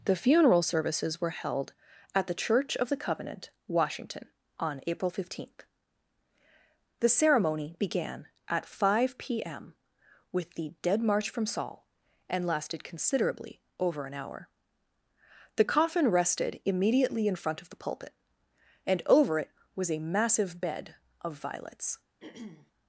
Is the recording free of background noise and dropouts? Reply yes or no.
no